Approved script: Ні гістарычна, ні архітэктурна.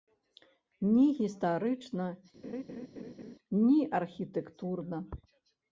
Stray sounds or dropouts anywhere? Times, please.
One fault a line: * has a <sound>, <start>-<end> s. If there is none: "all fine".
* has a laugh, 2.4-3.4 s